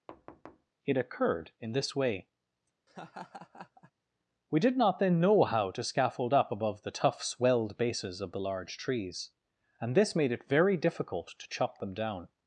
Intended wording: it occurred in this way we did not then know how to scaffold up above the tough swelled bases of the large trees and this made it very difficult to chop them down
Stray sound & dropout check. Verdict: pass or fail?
fail